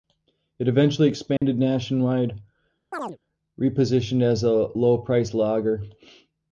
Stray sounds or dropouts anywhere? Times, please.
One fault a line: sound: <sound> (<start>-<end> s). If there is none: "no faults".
sound: dropout (1.4-1.4 s)
sound: chirp (2.9-3.2 s)